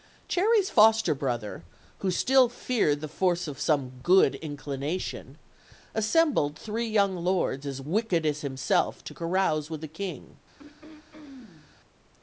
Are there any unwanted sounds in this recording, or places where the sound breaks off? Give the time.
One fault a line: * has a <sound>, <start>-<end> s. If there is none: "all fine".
* has a throat clearing, 10.6-11.8 s